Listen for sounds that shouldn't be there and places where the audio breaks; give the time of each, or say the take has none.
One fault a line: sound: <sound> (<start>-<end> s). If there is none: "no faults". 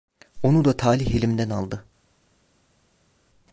no faults